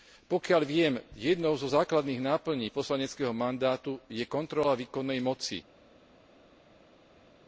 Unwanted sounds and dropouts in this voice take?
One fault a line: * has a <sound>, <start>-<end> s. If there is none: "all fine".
all fine